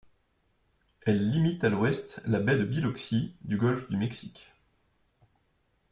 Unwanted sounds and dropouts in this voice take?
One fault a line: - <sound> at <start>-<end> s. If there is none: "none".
none